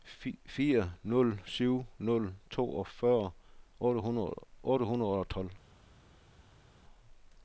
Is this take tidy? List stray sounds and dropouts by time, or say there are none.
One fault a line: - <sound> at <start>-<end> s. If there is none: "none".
none